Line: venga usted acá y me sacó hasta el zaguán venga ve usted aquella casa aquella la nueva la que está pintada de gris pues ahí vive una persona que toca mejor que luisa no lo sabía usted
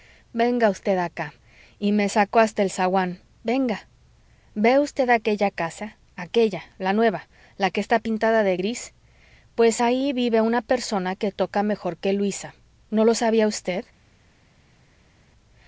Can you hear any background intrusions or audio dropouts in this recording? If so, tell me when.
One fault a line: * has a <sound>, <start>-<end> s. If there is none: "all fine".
all fine